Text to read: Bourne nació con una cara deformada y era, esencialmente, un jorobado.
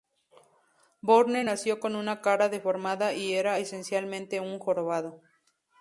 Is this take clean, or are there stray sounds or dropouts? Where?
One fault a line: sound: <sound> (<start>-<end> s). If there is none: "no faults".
no faults